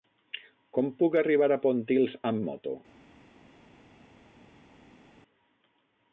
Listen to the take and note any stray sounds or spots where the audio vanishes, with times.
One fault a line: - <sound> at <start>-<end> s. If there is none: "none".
none